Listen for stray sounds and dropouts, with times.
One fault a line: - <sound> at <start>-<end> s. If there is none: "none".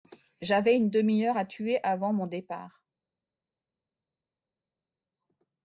none